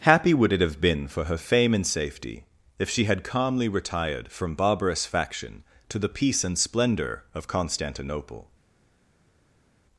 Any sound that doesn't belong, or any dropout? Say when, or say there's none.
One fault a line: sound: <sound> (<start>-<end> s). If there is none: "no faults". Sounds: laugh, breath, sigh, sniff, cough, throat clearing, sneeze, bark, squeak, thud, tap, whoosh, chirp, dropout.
no faults